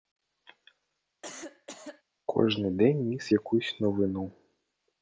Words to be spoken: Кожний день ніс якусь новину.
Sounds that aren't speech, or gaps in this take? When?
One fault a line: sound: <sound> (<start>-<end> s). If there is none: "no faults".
sound: cough (1.2-2.0 s)